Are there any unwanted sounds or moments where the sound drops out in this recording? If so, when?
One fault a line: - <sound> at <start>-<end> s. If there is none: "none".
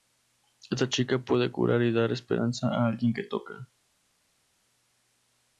none